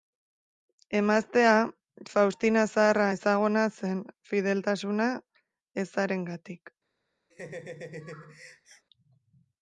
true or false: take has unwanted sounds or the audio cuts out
true